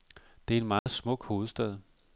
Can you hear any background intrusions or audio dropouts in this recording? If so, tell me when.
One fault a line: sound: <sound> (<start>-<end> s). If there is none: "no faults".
sound: dropout (0.8-0.9 s)